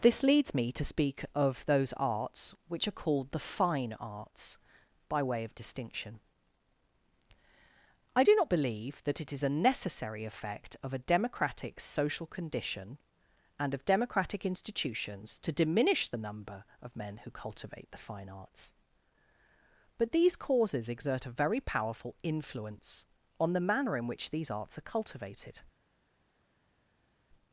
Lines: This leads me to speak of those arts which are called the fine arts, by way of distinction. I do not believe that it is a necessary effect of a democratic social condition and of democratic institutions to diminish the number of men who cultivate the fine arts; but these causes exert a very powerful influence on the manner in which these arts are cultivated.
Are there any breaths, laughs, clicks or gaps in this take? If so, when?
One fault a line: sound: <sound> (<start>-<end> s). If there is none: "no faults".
no faults